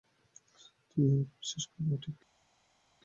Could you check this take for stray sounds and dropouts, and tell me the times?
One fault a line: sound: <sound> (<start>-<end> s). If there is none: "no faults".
no faults